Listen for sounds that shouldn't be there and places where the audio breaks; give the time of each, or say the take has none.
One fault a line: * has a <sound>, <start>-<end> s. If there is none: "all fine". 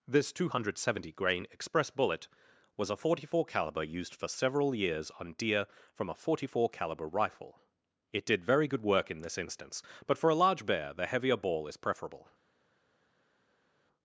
all fine